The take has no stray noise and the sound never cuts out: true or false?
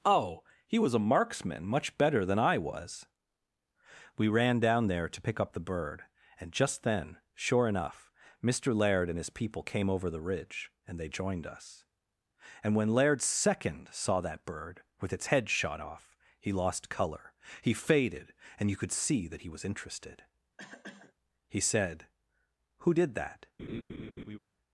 false